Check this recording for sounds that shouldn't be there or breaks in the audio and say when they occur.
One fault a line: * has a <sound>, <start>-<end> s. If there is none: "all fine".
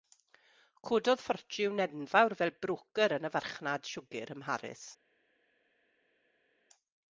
all fine